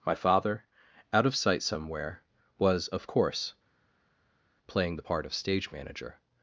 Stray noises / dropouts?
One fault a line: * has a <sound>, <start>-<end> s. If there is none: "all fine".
all fine